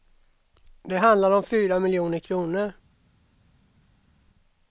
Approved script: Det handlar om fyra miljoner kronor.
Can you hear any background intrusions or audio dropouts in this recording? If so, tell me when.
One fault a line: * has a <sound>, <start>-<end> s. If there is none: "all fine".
all fine